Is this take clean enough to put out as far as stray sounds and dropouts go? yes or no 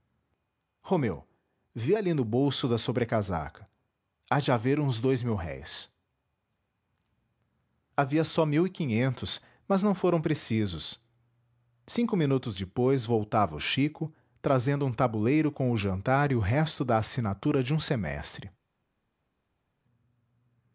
yes